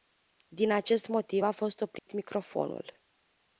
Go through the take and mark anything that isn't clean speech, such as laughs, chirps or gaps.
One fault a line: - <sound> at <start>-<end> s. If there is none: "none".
- dropout at 2.0-2.1 s